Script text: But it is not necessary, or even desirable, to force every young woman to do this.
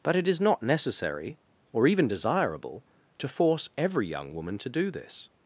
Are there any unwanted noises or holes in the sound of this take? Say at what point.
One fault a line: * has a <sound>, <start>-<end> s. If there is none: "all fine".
all fine